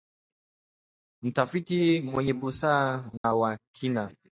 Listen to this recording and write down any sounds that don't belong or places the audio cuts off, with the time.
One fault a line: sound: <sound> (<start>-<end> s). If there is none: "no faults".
sound: dropout (3.2-3.2 s)